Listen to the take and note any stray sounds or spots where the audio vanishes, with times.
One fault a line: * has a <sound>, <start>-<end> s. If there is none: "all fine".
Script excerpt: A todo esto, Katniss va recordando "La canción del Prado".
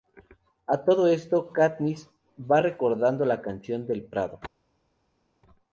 all fine